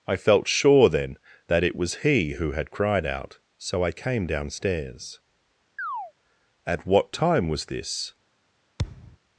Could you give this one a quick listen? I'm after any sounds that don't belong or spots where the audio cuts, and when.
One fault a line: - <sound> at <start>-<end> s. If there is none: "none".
- chirp at 5.8-6.1 s
- thud at 8.8-9.2 s